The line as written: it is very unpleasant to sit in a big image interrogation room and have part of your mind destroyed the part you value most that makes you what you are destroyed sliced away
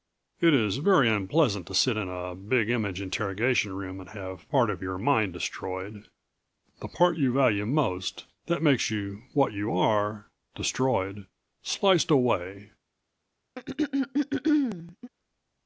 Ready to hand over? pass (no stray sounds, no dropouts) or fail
fail